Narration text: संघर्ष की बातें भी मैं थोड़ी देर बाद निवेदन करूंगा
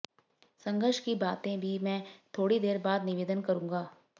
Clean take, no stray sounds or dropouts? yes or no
yes